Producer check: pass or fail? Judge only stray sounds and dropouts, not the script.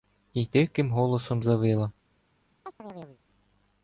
fail